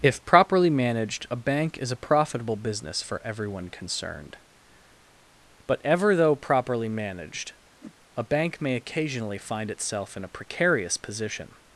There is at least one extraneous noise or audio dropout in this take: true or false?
true